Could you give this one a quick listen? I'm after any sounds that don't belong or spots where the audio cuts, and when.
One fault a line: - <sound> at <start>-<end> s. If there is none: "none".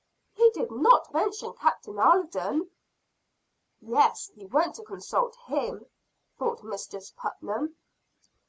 none